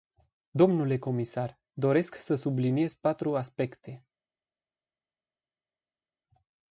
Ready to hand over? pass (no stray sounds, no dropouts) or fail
pass